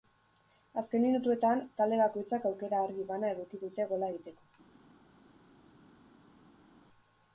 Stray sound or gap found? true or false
false